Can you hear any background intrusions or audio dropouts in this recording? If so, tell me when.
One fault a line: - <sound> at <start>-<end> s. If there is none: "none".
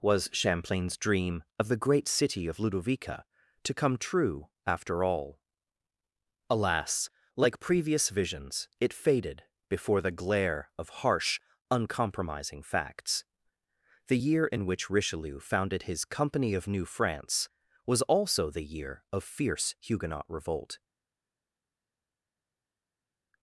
none